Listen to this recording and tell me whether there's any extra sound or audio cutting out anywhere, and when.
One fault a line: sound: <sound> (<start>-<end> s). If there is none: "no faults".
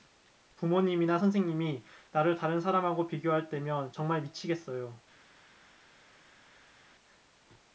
no faults